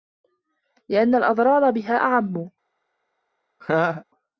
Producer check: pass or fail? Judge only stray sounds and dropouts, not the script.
fail